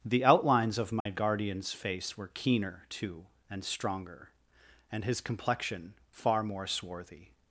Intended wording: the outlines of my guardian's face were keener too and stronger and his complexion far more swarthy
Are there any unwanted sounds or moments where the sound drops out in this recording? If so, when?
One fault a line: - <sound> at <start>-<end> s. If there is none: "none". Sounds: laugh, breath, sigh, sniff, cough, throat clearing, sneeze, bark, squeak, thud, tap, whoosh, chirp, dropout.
- dropout at 1.0-1.1 s